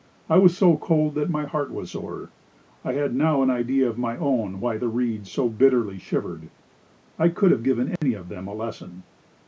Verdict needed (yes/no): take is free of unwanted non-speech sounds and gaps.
no